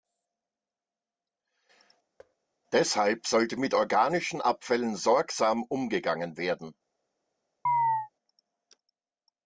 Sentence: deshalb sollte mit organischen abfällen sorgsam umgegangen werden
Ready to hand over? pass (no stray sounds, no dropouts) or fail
fail